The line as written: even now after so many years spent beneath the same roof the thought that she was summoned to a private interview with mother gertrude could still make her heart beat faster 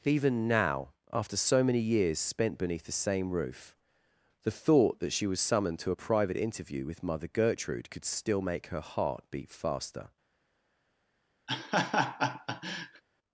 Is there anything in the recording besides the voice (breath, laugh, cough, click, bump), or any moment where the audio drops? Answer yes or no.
yes